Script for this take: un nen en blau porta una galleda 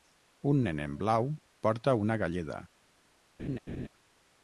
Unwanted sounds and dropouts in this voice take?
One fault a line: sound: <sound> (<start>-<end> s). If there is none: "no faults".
sound: laugh (3.4-3.9 s)